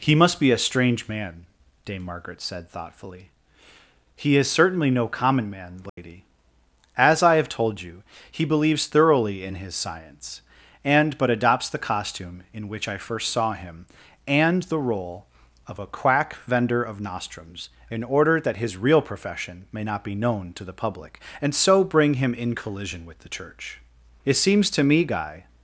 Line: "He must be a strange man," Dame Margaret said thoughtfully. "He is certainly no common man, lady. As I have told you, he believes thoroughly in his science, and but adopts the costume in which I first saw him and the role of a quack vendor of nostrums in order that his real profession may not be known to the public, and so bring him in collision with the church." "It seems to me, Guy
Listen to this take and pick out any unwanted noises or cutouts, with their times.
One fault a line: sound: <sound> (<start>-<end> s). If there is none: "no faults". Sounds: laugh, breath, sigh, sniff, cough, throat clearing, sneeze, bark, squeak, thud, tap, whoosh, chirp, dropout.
sound: dropout (5.9-6.0 s)